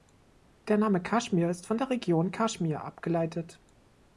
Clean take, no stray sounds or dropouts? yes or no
yes